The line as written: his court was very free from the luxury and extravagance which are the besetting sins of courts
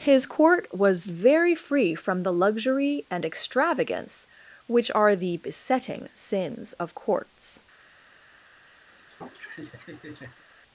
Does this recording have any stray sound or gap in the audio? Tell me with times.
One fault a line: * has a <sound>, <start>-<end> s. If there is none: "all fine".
* has a laugh, 8.9-10.4 s